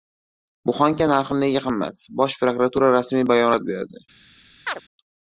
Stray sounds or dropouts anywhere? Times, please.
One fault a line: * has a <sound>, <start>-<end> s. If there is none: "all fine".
* has a chirp, 4.7-4.8 s